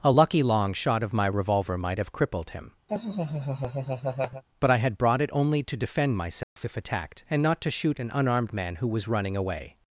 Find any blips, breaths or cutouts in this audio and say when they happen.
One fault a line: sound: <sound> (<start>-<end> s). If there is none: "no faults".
sound: laugh (2.9-4.4 s)
sound: dropout (6.4-6.6 s)